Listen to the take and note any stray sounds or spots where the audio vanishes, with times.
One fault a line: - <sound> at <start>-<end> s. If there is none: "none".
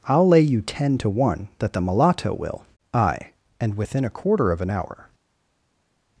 none